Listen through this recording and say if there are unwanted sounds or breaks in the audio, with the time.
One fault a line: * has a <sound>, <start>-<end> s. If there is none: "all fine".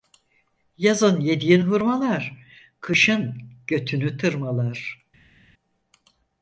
all fine